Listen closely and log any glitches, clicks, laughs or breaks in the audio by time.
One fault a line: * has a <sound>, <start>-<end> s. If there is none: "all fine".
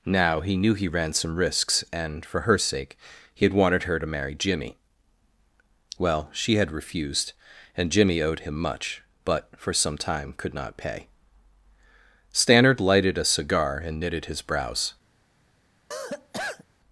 * has a cough, 15.9-16.6 s